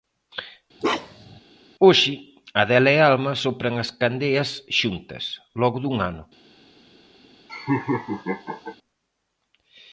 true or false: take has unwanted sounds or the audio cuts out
true